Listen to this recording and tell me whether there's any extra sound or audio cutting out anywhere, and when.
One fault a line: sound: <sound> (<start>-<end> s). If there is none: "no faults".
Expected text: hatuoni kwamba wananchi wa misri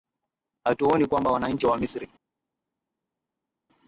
no faults